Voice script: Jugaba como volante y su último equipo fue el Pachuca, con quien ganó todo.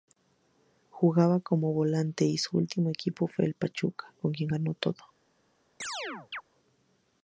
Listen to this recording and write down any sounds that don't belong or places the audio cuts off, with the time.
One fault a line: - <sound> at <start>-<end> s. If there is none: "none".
- chirp at 5.8-6.4 s